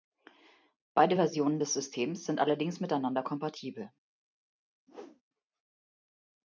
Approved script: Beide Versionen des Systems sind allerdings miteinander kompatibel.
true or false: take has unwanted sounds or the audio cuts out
true